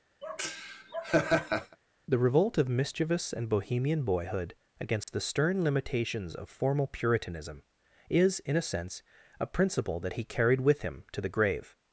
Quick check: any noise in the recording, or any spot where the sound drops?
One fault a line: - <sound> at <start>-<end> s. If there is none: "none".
- laugh at 0.2-1.8 s
- dropout at 5.0-5.1 s